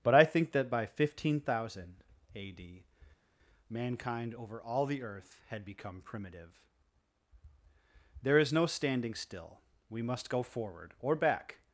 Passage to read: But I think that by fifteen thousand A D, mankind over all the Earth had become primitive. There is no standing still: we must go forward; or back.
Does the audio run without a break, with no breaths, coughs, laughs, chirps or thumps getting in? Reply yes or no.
yes